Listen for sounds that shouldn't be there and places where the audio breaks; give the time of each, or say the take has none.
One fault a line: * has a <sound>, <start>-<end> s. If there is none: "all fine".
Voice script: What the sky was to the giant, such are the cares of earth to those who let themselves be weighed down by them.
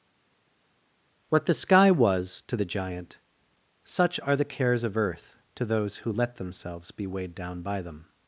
all fine